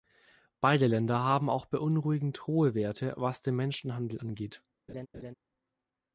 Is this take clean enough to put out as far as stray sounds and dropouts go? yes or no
no